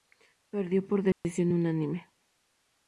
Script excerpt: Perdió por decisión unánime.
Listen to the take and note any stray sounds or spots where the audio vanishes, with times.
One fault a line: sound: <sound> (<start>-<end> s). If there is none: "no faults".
sound: dropout (1.1-1.2 s)